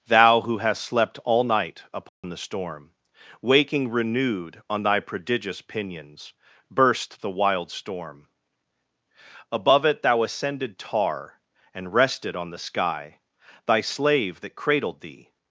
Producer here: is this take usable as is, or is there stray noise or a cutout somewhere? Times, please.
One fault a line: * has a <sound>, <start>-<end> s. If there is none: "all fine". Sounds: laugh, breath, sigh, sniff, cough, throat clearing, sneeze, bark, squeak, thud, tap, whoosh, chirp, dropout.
* has a dropout, 2.1-2.2 s